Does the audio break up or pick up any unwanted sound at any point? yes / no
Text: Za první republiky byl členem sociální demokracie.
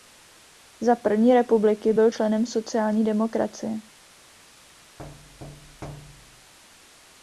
yes